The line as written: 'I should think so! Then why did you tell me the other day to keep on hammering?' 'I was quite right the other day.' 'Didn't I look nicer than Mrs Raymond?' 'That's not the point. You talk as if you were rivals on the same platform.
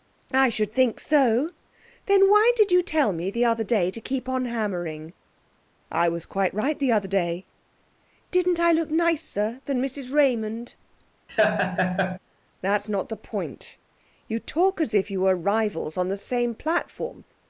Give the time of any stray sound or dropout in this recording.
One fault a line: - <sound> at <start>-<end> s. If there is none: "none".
- laugh at 11.3-12.2 s